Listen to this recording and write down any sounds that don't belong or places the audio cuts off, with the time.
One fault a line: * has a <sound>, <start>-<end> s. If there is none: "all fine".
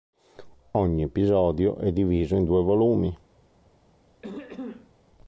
* has a throat clearing, 4.2-4.9 s